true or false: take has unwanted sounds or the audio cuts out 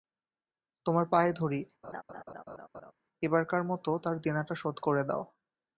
true